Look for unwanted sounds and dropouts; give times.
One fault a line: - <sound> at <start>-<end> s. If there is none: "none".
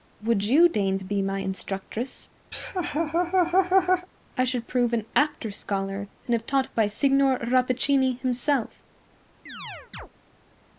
- laugh at 2.5-4.1 s
- chirp at 9.5-10.1 s